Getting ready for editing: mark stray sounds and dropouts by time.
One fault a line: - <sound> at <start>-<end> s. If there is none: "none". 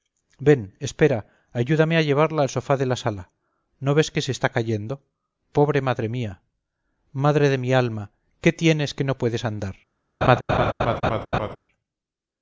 - laugh at 10.2-11.6 s